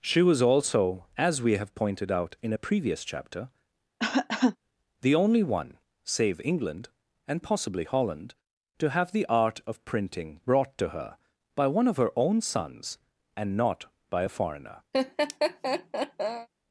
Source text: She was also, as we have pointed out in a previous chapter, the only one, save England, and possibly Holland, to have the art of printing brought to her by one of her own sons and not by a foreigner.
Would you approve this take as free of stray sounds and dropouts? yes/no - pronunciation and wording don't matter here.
no